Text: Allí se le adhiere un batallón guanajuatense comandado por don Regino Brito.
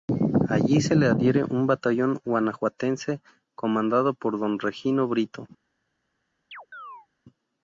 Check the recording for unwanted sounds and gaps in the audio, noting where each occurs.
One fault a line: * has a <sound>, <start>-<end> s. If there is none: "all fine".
* has a chirp, 6.5-7.1 s